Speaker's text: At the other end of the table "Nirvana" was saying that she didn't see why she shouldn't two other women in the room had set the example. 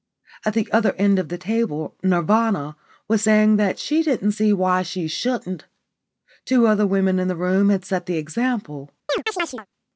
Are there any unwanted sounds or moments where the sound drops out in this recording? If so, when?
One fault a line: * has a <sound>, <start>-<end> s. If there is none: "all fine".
* has a chirp, 9.1-9.7 s